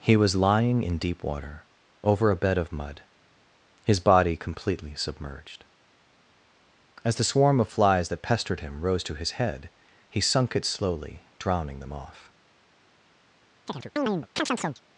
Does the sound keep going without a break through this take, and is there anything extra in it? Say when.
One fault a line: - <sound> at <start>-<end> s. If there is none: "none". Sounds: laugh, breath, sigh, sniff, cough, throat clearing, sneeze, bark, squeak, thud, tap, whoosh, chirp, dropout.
- chirp at 13.7-14.8 s